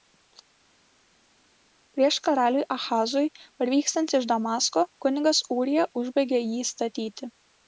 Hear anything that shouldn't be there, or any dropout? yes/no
no